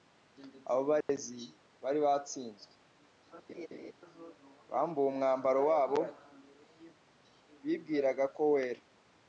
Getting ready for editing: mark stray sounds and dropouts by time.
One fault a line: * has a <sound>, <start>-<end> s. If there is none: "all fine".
* has a dropout, 1.0-1.1 s
* has a laugh, 3.5-3.9 s